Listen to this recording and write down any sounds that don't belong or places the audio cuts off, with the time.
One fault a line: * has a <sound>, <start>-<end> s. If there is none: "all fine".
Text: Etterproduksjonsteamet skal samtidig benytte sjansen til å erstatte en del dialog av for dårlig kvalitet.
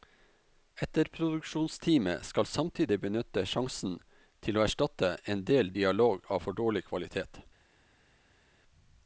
all fine